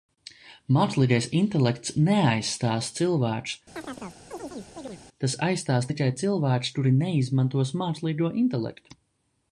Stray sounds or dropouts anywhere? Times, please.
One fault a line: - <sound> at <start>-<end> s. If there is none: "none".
- chirp at 3.7-5.0 s